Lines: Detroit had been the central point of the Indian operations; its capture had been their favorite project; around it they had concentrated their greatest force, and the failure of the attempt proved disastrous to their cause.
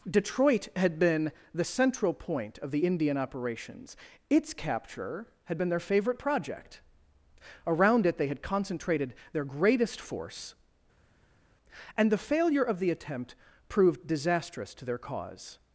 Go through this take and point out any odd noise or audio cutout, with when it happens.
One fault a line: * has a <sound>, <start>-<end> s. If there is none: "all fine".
all fine